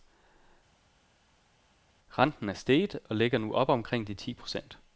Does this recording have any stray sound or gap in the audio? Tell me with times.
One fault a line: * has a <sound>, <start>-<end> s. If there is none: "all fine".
all fine